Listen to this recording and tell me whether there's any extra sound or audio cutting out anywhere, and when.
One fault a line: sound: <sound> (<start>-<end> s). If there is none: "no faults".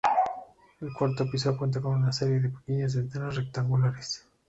no faults